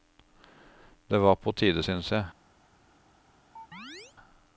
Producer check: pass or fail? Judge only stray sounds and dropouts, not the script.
fail